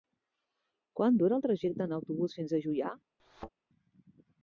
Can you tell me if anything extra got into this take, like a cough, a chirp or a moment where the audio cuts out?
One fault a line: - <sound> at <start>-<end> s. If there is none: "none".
- thud at 3.2-3.5 s